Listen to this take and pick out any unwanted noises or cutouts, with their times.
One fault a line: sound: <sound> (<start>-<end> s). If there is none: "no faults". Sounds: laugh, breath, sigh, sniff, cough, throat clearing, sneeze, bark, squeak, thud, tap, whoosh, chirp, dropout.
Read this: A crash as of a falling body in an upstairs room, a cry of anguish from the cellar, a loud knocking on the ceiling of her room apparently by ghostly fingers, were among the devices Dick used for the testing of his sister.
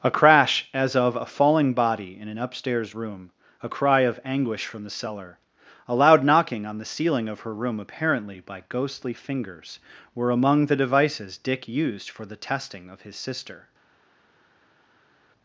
no faults